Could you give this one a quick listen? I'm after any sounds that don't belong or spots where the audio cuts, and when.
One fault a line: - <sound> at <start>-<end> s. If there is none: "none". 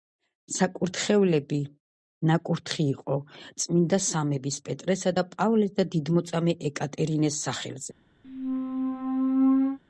- squeak at 8.2-9.8 s